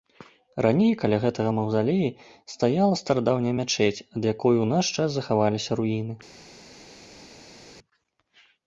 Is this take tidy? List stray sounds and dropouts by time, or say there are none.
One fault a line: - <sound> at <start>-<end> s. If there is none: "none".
none